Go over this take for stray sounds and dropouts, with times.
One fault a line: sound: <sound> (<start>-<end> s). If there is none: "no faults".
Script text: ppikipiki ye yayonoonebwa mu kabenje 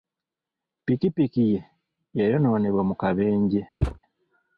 sound: thud (3.8-4.0 s)